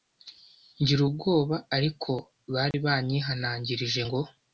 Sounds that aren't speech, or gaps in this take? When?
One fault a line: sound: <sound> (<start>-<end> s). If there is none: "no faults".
sound: dropout (2.7-2.7 s)